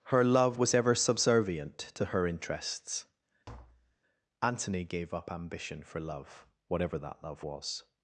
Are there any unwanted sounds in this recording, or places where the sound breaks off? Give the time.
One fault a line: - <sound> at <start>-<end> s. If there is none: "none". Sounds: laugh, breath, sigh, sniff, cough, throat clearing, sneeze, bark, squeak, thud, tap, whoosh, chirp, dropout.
- tap at 3.5-4.0 s